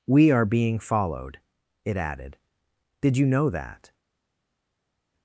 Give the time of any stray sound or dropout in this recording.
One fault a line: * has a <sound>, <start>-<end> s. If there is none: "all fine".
all fine